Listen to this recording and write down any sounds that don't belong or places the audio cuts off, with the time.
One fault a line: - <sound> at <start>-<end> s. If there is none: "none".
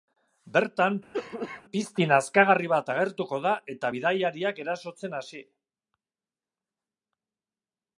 - cough at 1.1-1.6 s